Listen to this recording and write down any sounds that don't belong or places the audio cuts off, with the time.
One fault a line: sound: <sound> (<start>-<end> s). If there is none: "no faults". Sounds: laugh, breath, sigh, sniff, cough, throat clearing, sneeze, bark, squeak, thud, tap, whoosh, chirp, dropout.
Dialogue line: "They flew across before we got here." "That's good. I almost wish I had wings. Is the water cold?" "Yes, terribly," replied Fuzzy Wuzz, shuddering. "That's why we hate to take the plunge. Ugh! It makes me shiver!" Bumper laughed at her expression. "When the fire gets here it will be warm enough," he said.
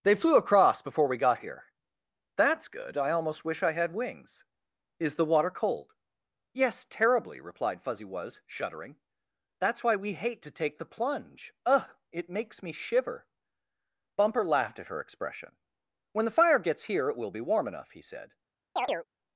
sound: chirp (18.8-19.1 s)